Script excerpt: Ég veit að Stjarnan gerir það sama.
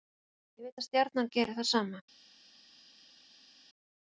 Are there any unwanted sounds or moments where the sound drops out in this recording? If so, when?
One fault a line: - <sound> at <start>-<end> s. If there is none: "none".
none